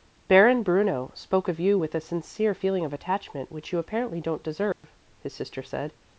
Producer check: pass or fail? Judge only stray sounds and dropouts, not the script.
fail